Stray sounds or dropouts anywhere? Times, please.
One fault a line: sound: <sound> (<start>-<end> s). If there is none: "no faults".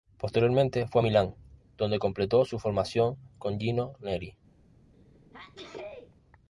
sound: sneeze (4.9-6.2 s)